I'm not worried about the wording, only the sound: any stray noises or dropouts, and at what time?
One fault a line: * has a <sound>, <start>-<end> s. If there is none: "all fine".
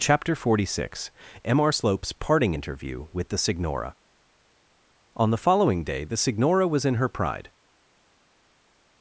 all fine